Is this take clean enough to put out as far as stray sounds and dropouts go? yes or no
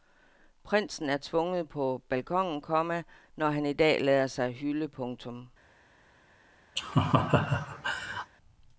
no